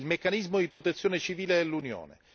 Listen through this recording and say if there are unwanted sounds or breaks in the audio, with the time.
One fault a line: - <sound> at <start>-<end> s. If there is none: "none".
- dropout at 0.7-0.8 s